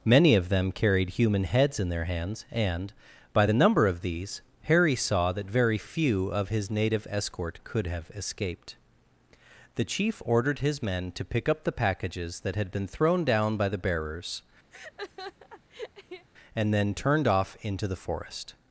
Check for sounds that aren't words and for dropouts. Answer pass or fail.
fail